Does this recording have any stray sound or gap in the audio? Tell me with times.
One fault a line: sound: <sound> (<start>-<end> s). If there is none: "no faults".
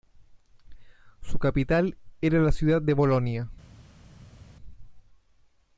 no faults